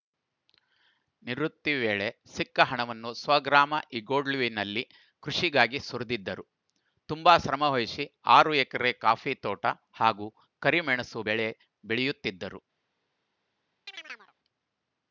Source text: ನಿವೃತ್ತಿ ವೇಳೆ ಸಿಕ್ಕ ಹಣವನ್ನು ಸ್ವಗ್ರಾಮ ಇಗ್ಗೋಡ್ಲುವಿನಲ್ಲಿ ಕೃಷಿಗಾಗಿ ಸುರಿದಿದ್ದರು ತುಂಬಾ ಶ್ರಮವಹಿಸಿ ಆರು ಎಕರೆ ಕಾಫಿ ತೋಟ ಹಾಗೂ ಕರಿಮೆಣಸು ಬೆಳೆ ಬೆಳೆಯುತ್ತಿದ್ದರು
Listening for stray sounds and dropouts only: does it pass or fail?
fail